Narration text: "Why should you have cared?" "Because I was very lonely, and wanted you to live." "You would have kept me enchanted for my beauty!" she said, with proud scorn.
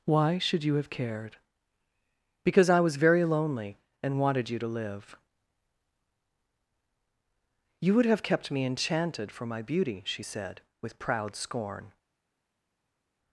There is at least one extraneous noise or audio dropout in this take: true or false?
false